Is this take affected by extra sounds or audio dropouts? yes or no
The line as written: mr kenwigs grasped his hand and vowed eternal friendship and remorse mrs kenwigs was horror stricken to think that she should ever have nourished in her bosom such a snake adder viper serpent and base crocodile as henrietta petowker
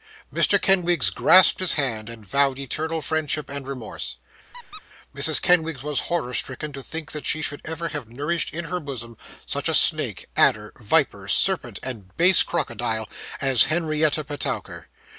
yes